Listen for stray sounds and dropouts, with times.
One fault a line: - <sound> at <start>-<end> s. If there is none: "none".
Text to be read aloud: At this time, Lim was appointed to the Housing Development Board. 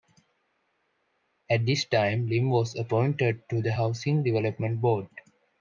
none